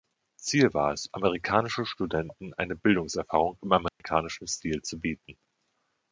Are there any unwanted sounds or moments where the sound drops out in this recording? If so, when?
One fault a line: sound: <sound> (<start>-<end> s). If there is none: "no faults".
sound: dropout (3.9-4.0 s)